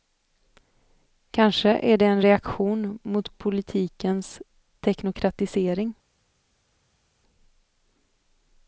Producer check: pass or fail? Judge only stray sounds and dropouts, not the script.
pass